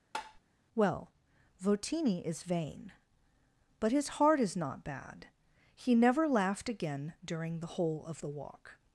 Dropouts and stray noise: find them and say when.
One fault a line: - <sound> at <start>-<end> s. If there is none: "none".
- tap at 0.1-0.4 s